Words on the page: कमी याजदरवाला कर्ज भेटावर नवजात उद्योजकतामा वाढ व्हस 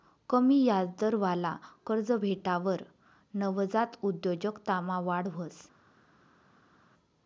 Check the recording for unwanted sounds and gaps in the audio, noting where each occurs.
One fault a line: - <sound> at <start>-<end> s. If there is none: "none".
none